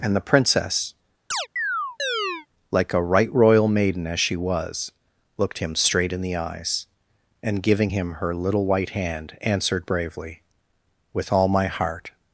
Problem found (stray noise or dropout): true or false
true